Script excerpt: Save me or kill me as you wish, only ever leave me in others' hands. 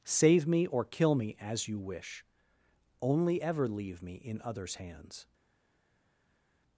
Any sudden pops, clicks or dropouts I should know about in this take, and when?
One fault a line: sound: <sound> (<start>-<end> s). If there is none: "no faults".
no faults